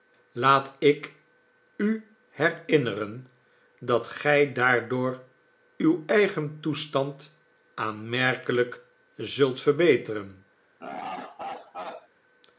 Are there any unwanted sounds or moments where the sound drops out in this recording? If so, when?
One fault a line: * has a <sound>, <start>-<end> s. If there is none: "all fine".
* has a laugh, 10.8-12.1 s